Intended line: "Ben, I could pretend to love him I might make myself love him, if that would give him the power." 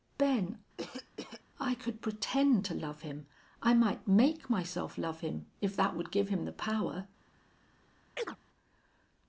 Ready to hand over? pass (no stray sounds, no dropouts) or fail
fail